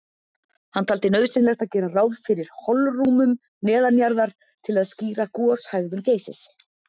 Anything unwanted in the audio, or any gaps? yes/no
no